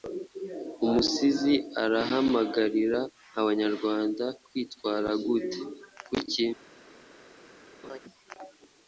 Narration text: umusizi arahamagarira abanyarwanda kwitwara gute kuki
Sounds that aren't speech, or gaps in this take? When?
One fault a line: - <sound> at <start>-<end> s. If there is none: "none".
- laugh at 7.8-8.0 s